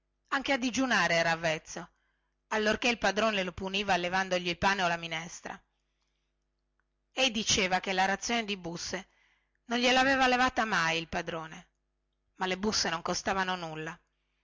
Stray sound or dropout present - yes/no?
no